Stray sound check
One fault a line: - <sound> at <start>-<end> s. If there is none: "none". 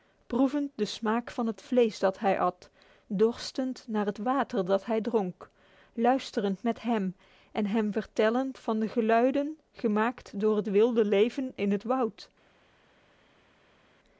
none